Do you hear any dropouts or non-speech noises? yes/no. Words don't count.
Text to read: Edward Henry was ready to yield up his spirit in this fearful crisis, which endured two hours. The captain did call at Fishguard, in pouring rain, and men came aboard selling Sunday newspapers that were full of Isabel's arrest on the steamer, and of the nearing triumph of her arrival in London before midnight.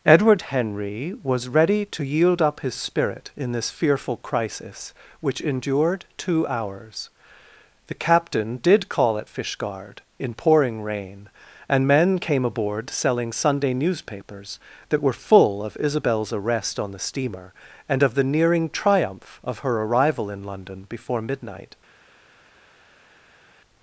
no